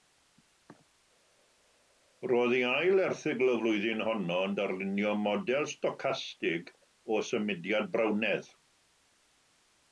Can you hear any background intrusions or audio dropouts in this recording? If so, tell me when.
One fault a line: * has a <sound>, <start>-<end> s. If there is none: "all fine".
all fine